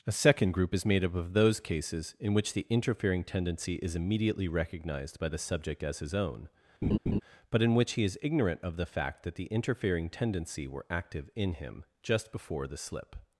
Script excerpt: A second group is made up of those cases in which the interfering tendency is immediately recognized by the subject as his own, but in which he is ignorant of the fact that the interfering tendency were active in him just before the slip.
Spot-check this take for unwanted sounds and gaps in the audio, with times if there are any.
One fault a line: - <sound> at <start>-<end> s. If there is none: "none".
- laugh at 6.8-7.2 s